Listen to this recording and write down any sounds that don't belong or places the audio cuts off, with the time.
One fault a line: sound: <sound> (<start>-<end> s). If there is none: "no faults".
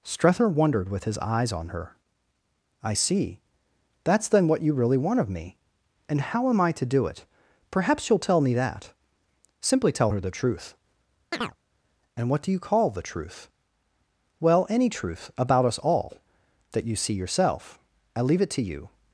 sound: chirp (11.3-11.6 s)